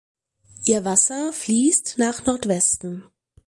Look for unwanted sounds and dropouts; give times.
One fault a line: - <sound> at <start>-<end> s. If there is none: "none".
none